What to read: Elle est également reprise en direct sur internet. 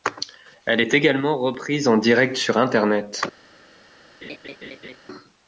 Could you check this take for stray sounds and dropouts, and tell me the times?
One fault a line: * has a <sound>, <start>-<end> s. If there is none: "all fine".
* has a laugh, 4.2-5.0 s